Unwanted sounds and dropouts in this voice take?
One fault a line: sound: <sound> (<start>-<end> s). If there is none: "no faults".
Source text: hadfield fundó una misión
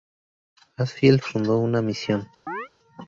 sound: chirp (2.5-2.7 s)